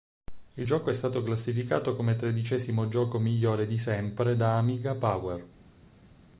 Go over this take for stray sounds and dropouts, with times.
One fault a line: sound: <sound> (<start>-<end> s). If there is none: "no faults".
no faults